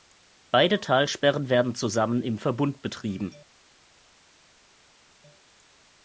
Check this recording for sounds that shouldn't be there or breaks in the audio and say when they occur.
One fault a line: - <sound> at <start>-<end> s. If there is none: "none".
none